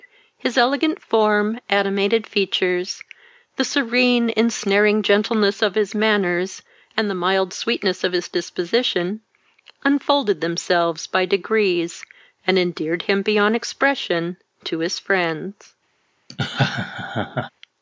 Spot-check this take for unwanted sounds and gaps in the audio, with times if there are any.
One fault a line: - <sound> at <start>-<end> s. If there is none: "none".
- laugh at 16.3-17.5 s